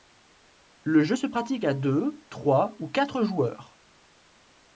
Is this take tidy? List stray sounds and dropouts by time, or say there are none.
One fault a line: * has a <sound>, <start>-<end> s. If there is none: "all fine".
all fine